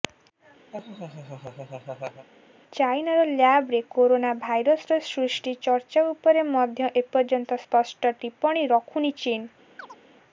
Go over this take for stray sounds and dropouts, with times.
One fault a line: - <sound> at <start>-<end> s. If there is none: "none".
- laugh at 0.7-2.3 s
- chirp at 9.8-10.0 s